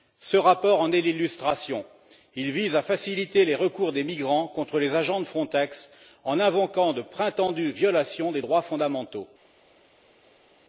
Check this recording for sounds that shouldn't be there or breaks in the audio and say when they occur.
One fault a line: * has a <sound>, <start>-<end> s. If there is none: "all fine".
all fine